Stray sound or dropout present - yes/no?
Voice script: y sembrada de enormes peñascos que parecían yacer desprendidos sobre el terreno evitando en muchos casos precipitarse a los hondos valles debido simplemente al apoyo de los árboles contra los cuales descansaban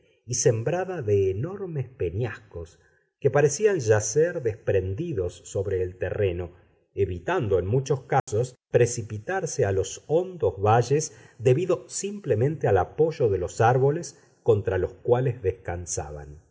yes